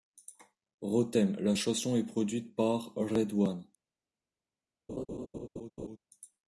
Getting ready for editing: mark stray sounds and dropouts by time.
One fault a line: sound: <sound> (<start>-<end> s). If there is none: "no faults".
sound: laugh (4.9-6.0 s)